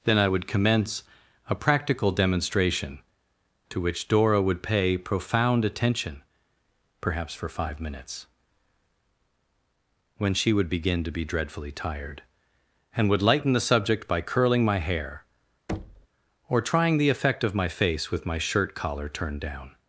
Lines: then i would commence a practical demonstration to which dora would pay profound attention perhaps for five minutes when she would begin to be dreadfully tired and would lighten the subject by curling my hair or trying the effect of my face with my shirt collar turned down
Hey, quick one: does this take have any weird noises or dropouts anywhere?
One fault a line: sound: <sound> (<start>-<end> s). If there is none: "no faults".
sound: thud (15.7-16.1 s)